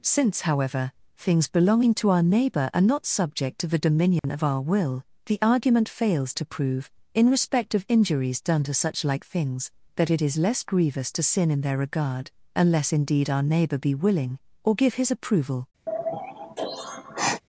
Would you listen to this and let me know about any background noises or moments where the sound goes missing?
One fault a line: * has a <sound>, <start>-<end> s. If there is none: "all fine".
* has a dropout, 4.2-4.2 s
* has a sigh, 15.9-17.4 s